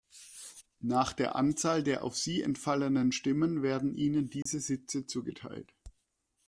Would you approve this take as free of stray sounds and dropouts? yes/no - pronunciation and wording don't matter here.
no